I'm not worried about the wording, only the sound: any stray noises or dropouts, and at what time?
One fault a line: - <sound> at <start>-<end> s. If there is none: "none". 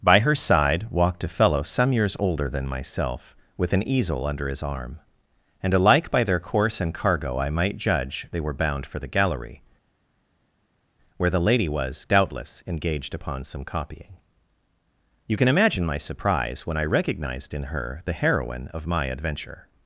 none